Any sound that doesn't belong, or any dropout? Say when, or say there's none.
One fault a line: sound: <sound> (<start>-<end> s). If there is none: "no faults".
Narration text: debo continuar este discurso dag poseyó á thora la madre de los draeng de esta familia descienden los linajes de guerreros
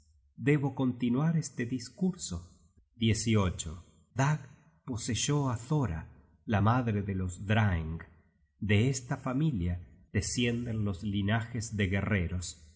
no faults